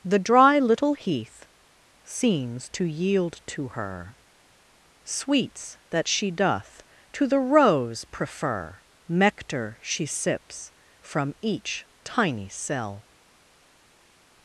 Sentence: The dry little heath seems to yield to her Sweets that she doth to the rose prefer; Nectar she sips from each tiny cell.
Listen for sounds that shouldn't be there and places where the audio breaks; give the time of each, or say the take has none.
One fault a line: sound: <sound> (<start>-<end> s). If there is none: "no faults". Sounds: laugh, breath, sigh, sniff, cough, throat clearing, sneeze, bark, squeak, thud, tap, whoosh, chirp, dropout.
no faults